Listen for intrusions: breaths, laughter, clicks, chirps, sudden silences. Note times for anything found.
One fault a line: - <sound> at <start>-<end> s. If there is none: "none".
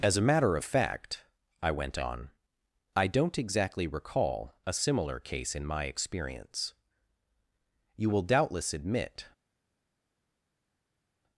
none